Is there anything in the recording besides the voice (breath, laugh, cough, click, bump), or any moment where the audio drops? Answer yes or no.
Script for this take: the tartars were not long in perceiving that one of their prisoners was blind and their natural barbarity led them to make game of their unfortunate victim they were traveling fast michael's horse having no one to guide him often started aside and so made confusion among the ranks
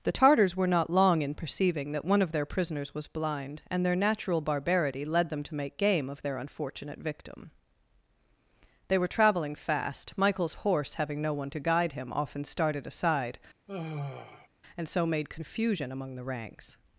yes